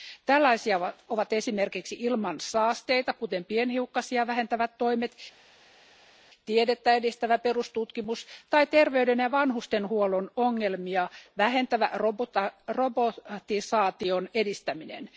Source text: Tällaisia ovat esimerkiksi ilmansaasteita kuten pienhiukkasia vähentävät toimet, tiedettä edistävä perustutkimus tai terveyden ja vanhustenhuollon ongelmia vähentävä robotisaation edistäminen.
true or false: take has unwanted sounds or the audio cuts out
false